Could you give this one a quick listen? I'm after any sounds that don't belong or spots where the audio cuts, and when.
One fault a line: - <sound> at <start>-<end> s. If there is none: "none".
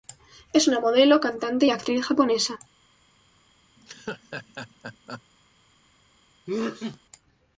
- laugh at 3.8-5.2 s
- sneeze at 6.5-7.0 s